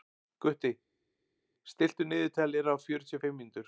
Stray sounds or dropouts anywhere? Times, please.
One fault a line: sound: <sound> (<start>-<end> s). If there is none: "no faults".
no faults